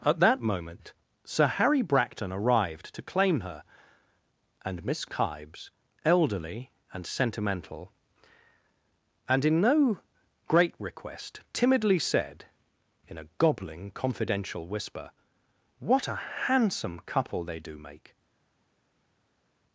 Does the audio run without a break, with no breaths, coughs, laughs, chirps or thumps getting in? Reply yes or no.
yes